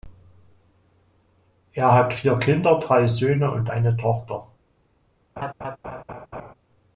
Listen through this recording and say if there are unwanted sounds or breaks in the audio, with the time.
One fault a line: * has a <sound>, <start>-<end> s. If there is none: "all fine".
* has a laugh, 5.4-6.5 s